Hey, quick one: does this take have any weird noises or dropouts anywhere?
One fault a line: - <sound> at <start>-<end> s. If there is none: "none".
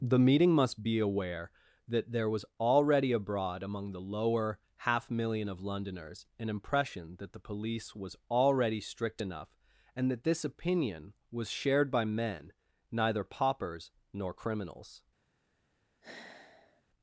- sigh at 16.0-16.8 s